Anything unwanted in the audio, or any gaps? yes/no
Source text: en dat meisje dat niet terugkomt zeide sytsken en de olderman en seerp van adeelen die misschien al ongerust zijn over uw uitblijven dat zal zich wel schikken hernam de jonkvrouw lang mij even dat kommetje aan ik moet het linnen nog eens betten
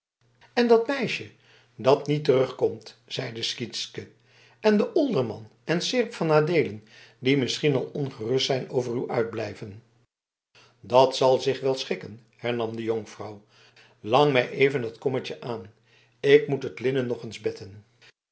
no